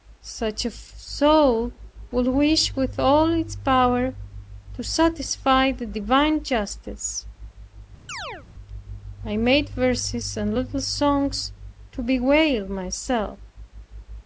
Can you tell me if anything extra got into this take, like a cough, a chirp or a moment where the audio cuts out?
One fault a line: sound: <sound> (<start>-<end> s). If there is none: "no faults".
sound: chirp (8.1-8.5 s)